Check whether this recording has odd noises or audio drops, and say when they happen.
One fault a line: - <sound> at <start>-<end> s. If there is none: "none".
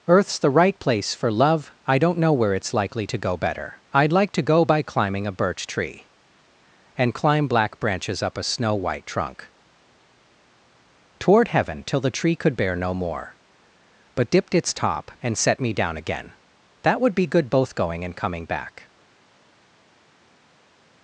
none